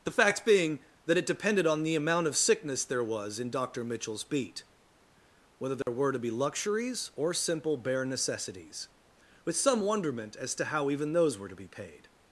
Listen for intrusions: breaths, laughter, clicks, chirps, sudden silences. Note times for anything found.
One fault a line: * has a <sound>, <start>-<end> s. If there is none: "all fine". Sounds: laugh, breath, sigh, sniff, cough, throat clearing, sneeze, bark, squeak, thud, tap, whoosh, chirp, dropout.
* has a dropout, 5.8-5.9 s